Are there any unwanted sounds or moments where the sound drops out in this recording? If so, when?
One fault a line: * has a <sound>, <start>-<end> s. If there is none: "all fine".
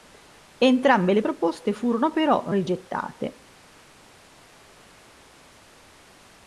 all fine